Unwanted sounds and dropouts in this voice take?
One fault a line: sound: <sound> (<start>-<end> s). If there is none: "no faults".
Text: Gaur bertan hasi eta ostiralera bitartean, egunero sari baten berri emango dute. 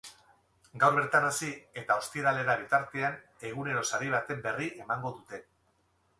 no faults